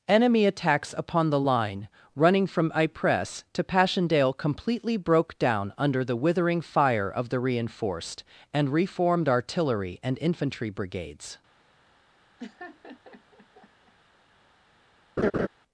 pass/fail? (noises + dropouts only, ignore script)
fail